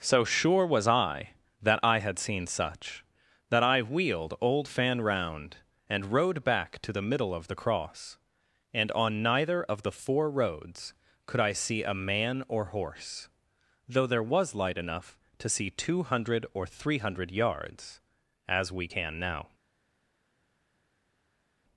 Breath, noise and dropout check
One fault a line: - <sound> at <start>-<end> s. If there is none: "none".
none